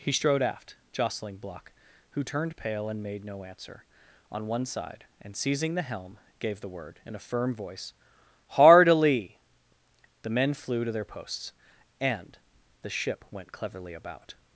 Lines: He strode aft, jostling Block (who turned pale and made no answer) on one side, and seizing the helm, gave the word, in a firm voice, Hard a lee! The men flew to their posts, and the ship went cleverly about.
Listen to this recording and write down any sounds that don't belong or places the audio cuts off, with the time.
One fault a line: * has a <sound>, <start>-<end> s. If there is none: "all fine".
all fine